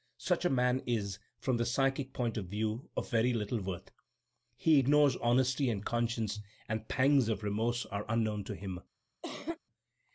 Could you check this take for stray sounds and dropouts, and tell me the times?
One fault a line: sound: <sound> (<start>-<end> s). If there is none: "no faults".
sound: cough (9.2-9.6 s)